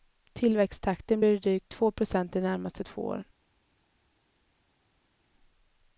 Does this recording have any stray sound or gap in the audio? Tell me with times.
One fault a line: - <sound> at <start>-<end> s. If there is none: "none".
none